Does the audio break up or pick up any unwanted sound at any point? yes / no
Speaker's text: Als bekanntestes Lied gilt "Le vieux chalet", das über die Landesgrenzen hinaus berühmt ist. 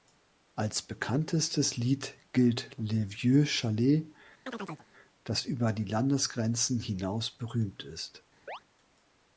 yes